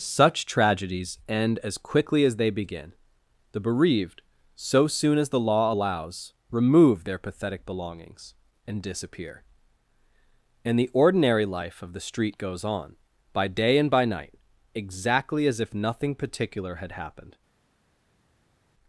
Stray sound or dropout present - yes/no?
no